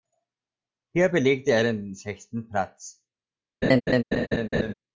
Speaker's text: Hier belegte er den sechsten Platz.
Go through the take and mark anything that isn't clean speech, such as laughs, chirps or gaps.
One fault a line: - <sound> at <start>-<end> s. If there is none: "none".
- laugh at 3.6-4.7 s